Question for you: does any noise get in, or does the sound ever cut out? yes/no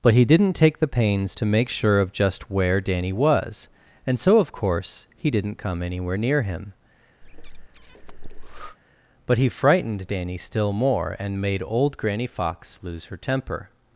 yes